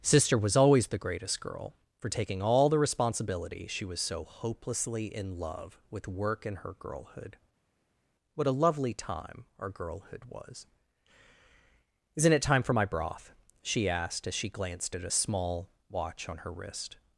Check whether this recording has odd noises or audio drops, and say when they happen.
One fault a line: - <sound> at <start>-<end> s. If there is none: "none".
none